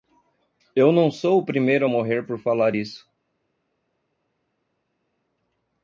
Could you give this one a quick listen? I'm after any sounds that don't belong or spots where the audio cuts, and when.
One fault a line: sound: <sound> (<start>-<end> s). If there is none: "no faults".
no faults